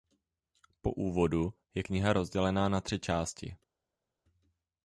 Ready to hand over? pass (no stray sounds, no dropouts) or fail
pass